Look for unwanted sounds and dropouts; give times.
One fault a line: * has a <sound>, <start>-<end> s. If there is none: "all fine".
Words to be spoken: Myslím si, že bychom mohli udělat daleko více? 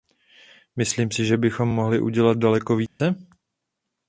* has a dropout, 2.9-3.0 s